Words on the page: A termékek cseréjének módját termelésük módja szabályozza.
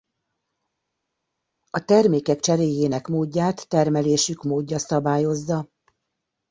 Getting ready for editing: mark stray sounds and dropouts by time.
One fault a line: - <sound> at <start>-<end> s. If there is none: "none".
none